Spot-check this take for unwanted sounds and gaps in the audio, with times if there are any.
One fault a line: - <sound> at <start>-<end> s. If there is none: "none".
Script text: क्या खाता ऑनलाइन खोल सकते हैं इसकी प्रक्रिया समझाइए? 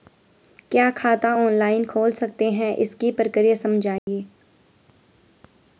- dropout at 4.0-4.1 s